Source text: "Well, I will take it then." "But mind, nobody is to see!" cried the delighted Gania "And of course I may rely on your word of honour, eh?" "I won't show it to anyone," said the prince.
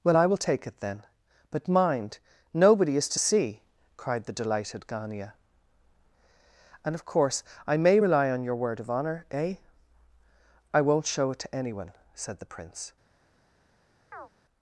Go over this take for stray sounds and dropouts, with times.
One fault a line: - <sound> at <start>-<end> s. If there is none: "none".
- chirp at 14.1-14.3 s